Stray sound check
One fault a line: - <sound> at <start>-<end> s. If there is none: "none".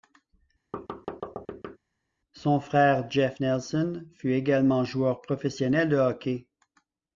- thud at 0.7-1.8 s